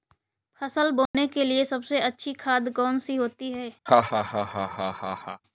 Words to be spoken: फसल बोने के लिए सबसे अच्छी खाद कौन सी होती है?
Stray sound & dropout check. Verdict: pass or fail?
fail